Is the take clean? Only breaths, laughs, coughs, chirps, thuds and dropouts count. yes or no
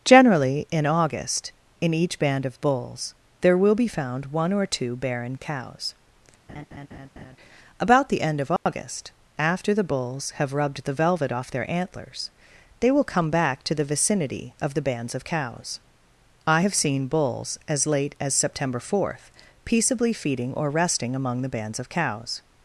no